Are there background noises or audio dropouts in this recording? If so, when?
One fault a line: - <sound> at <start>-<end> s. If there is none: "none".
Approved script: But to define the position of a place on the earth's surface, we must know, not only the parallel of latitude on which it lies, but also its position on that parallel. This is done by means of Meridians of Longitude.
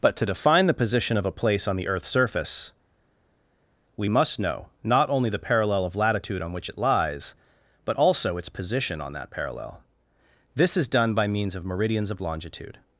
none